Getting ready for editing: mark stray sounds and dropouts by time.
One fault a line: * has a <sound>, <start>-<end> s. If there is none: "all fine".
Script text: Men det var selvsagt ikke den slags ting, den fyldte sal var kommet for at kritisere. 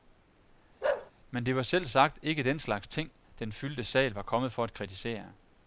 * has a bark, 0.8-1.1 s